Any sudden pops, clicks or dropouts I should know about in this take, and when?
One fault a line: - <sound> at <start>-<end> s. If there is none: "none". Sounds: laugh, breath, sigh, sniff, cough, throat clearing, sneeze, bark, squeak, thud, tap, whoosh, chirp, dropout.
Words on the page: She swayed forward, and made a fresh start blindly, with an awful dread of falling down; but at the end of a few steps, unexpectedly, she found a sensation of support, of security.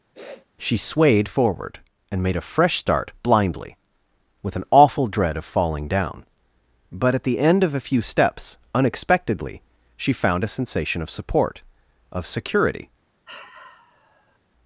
- sniff at 0.1-0.5 s
- sigh at 13.3-14.4 s